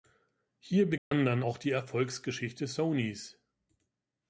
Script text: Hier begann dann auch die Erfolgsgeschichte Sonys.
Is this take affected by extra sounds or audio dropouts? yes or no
yes